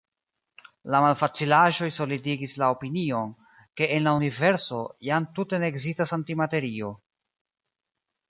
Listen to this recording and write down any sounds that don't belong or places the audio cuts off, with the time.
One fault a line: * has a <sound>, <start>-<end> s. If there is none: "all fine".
all fine